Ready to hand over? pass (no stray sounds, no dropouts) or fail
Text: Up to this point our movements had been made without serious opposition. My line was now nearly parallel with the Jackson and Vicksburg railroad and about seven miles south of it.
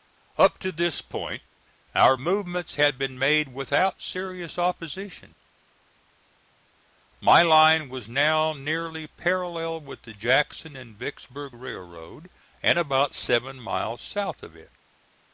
pass